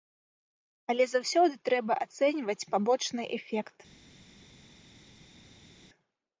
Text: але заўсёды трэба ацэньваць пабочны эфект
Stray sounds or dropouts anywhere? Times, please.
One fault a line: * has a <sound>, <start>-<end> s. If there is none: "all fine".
all fine